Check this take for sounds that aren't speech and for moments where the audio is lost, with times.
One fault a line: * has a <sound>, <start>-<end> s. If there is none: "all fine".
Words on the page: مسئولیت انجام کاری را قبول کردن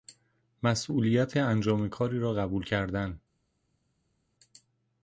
all fine